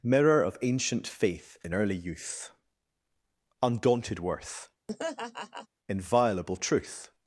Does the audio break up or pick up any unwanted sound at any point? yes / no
yes